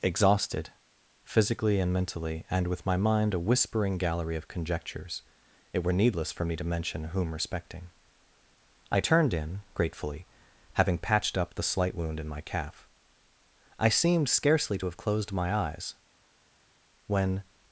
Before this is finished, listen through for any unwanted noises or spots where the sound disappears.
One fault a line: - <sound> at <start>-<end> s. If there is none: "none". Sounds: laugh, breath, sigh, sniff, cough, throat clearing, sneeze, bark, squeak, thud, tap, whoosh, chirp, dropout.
none